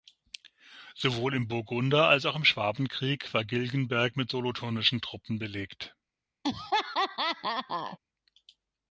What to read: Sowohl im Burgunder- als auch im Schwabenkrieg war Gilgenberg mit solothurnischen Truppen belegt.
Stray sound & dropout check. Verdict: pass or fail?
fail